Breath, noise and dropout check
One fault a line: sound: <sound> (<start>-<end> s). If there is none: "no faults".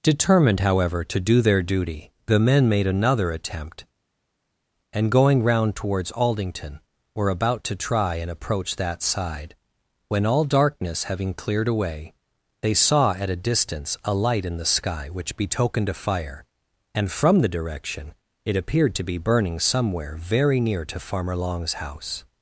no faults